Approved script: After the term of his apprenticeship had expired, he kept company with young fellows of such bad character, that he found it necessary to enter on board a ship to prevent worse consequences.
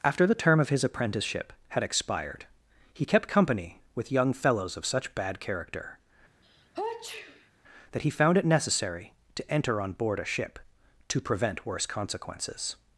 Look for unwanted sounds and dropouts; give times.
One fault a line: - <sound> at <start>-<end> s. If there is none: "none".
- sneeze at 6.4-7.5 s